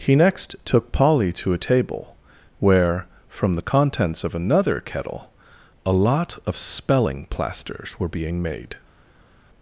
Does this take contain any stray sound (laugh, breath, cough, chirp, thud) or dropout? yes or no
no